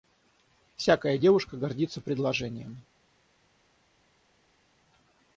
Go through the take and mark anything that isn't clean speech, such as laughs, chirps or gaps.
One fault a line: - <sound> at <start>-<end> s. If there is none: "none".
none